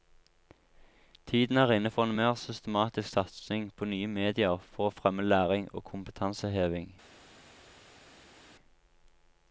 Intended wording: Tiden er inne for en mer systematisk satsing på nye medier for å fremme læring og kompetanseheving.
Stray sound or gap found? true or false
false